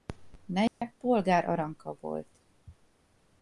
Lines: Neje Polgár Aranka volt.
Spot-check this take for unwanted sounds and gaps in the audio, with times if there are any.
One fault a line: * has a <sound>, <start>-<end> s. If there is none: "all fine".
* has a dropout, 0.7-0.8 s